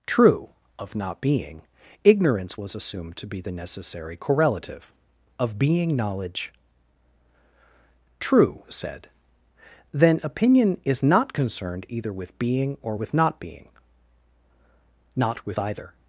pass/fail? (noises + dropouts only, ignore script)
pass